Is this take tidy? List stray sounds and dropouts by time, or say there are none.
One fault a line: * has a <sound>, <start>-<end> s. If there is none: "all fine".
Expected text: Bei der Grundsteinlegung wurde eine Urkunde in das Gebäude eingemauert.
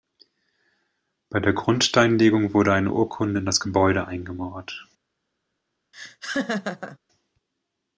* has a laugh, 5.9-7.0 s